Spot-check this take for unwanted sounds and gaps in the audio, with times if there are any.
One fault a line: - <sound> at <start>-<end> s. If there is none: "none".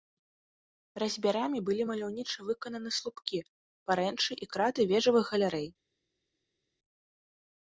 none